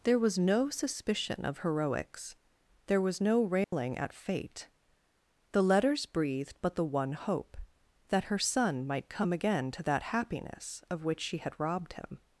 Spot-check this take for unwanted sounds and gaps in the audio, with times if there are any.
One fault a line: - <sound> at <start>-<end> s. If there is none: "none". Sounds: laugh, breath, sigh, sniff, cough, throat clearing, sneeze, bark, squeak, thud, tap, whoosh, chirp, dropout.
- dropout at 3.6-3.7 s